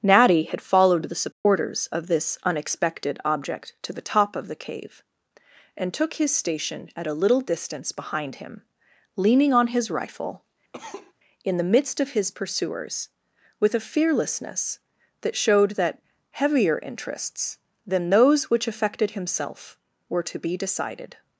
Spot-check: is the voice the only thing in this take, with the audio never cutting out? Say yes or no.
no